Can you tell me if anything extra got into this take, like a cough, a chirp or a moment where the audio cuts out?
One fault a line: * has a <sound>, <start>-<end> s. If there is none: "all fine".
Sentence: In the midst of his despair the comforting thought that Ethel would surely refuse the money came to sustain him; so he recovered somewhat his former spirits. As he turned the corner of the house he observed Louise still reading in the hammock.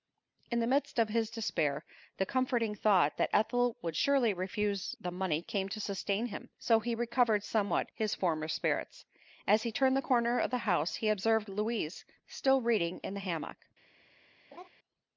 * has a laugh, 14.5-14.7 s